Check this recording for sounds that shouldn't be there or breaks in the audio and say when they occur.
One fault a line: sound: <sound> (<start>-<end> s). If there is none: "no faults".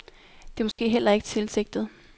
sound: dropout (0.7-0.8 s)